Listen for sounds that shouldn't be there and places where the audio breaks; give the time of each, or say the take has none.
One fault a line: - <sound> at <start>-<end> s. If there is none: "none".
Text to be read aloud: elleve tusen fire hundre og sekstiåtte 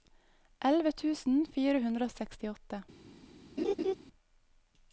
- laugh at 3.6-3.9 s